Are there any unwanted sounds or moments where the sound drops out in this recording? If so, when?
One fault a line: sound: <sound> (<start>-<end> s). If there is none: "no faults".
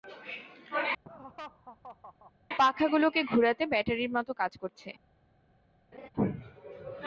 sound: laugh (1.0-2.3 s)
sound: laugh (5.9-6.1 s)